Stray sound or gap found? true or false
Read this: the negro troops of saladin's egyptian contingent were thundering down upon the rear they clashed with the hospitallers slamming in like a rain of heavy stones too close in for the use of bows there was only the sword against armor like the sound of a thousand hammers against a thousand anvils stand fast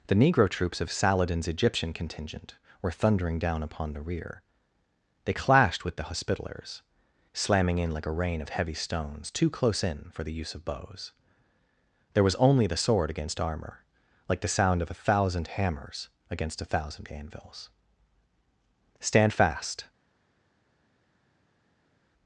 false